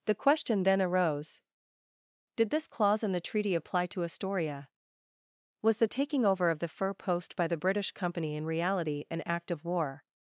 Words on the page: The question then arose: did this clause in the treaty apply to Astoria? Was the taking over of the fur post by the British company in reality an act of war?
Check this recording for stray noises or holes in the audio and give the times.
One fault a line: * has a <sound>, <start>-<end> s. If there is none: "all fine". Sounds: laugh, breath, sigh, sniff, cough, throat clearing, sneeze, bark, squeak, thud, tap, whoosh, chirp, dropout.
all fine